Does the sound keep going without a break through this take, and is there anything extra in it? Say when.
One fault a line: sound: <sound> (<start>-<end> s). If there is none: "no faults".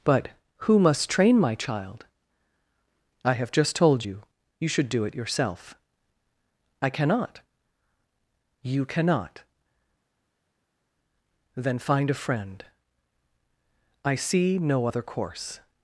no faults